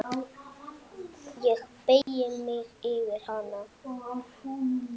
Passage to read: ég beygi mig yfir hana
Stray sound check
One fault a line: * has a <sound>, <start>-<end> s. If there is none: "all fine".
* has a dropout, 2.0-2.1 s